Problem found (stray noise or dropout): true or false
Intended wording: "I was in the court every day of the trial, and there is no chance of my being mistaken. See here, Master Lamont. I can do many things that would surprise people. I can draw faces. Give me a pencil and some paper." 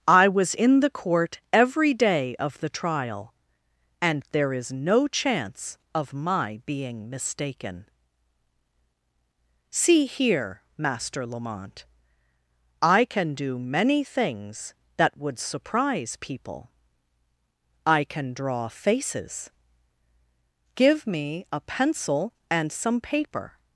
false